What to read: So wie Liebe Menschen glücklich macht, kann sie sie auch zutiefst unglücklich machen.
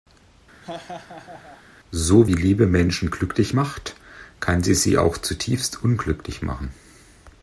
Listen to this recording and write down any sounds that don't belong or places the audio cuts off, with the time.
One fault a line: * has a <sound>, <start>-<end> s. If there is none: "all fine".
* has a laugh, 0.6-1.6 s